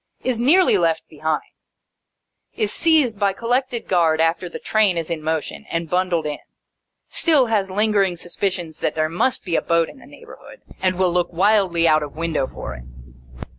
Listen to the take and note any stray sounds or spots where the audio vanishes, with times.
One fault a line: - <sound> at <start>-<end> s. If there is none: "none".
none